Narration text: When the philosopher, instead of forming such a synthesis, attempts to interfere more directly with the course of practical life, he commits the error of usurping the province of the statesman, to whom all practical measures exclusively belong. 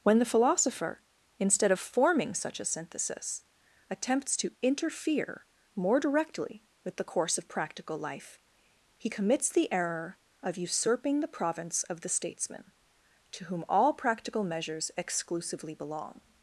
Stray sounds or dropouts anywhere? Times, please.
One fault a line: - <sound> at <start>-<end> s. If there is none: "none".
none